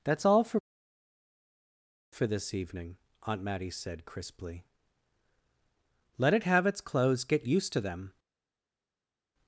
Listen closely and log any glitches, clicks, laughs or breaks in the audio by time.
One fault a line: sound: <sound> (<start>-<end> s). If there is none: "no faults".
no faults